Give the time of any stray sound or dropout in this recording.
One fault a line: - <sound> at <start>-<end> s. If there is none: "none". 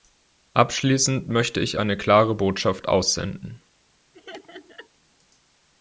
- laugh at 4.1-4.9 s